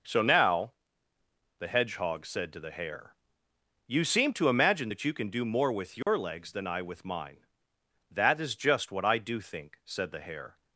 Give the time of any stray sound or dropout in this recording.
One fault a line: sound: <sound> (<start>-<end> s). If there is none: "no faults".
sound: dropout (6.0-6.1 s)